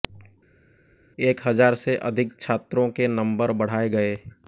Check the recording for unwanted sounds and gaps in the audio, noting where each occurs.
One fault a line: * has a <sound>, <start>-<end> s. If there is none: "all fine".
all fine